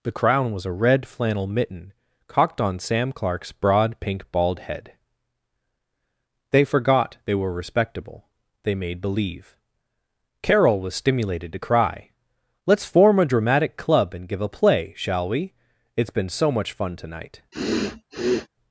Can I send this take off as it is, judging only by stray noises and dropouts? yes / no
no